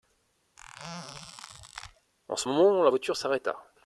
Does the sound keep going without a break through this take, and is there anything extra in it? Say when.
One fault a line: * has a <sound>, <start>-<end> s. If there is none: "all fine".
* has a squeak, 0.6-2.1 s